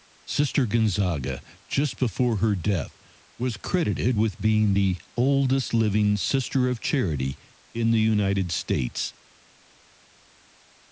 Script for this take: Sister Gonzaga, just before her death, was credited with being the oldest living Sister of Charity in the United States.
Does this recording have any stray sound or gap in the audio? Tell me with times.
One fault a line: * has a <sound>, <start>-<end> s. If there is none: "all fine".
all fine